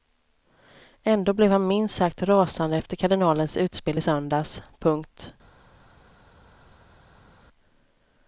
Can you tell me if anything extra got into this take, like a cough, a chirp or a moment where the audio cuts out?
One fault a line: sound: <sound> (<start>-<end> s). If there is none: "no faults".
no faults